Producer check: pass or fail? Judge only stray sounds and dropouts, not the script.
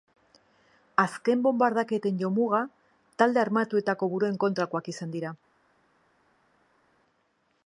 pass